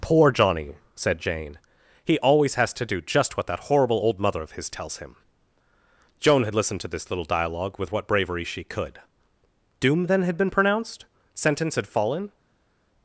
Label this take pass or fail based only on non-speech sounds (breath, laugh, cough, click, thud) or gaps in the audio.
pass